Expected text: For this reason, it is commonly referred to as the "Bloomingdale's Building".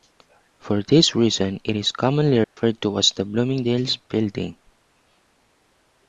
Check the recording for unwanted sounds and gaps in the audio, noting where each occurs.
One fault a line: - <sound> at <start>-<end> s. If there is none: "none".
- dropout at 2.4-2.6 s